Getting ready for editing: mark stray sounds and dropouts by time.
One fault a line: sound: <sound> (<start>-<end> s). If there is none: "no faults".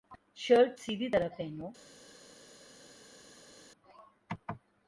no faults